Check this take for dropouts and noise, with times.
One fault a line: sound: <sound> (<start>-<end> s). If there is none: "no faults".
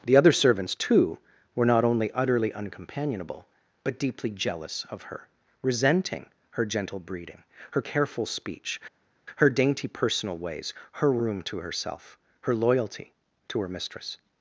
no faults